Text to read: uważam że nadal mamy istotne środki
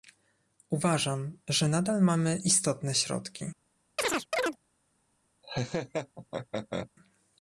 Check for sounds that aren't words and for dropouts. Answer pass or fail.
fail